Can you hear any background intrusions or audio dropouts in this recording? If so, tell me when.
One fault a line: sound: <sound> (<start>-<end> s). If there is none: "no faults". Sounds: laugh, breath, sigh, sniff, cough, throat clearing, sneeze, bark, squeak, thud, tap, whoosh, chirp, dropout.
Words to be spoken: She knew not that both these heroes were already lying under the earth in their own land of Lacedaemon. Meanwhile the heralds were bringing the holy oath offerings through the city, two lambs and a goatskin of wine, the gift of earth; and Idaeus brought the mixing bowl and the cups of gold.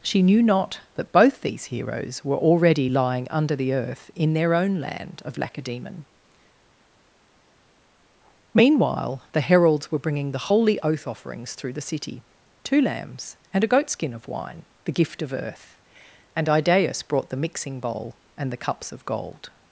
no faults